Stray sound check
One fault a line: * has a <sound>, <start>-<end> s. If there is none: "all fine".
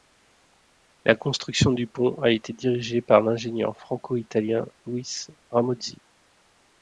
all fine